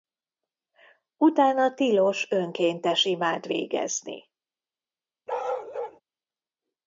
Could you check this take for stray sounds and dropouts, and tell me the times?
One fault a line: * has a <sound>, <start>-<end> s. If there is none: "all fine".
* has a bark, 5.3-6.0 s